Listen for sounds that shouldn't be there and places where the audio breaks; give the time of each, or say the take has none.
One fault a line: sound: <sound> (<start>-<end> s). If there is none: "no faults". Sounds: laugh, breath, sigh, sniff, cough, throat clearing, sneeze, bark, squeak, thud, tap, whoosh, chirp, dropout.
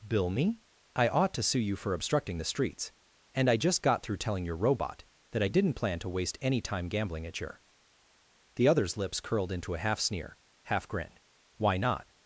no faults